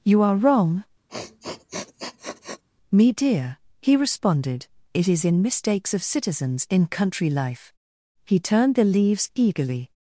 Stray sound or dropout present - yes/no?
yes